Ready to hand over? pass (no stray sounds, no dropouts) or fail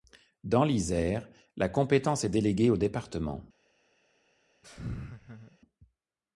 fail